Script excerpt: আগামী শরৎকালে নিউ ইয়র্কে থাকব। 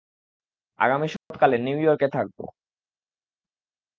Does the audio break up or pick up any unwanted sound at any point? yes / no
yes